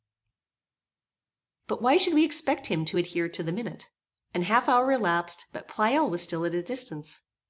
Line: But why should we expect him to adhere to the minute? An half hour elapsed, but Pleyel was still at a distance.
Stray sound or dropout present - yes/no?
no